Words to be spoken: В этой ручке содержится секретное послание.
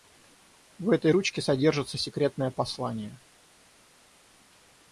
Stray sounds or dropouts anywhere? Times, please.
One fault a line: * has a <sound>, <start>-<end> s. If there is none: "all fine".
all fine